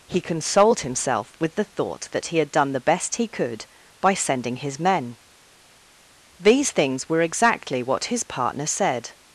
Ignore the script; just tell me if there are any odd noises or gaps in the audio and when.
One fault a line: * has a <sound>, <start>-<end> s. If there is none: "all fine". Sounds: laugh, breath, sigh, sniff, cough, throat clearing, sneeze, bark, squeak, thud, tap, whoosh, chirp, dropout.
all fine